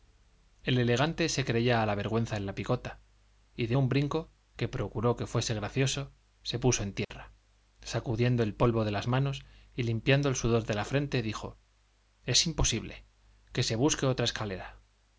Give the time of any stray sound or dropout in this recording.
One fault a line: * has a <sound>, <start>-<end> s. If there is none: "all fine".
* has a dropout, 7.0-7.1 s